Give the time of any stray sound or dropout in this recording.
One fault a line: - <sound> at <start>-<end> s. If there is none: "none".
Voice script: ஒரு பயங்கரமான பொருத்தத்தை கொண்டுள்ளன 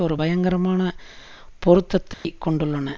- dropout at 2.1-2.2 s